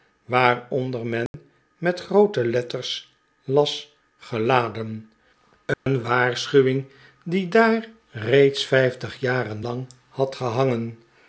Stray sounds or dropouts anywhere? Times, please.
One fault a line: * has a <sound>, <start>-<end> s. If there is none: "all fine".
* has a dropout, 1.3-1.3 s
* has a dropout, 5.7-5.9 s